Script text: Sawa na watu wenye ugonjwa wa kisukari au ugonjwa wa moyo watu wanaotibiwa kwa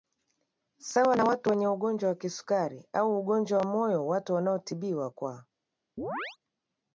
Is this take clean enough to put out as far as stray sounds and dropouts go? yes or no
no